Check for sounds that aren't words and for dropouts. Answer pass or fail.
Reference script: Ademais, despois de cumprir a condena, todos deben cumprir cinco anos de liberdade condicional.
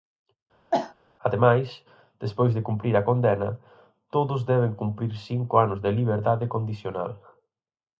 fail